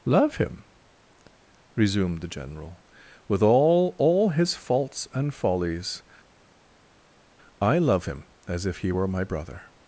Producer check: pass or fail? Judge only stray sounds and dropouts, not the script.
pass